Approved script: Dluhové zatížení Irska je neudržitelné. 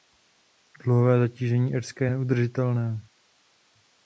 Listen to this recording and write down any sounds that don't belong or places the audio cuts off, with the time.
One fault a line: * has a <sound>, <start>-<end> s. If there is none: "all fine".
all fine